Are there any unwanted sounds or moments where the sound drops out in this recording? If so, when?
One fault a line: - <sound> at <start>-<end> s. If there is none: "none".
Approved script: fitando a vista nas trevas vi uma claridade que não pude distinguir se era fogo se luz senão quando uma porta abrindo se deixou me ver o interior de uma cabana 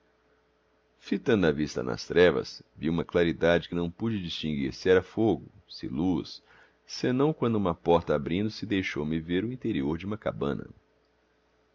none